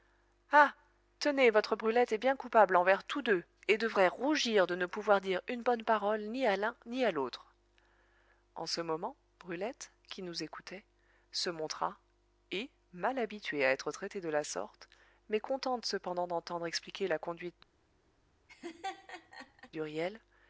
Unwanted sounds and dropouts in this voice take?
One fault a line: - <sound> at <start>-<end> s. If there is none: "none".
- laugh at 18.5-19.7 s